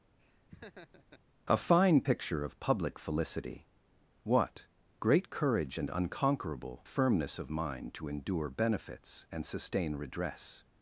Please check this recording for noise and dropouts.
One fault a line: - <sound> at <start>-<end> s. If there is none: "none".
- laugh at 0.2-1.2 s